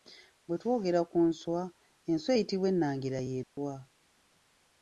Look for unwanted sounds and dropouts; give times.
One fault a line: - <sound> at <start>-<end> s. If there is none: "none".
- dropout at 3.4-3.6 s